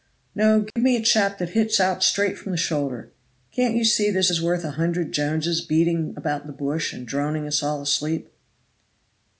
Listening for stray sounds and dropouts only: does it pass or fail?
fail